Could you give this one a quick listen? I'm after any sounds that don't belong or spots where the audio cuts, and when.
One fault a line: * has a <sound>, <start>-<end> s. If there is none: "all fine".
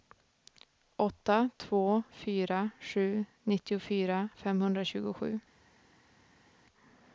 all fine